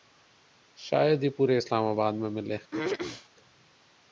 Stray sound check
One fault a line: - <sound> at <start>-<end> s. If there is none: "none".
- throat clearing at 2.7-3.3 s